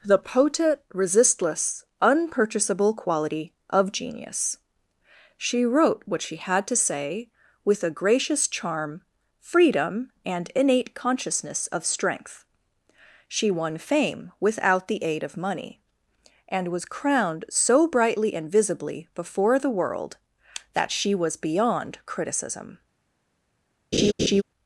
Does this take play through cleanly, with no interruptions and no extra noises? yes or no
no